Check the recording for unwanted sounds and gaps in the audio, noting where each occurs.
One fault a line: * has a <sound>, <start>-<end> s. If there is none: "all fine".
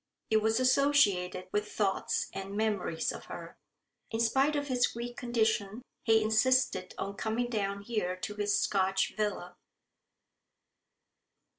all fine